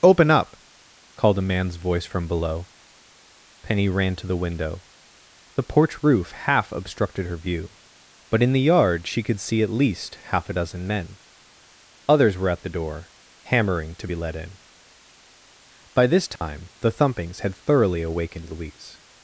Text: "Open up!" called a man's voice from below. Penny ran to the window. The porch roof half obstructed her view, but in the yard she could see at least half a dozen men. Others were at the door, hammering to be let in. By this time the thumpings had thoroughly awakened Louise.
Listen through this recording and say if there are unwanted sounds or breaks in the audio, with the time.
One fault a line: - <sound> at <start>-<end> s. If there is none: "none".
- dropout at 16.4-16.4 s